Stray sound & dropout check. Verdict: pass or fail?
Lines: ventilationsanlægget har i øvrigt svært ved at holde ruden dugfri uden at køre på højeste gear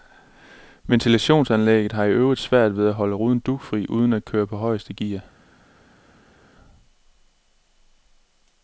pass